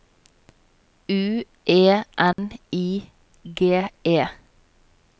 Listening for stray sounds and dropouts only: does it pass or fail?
fail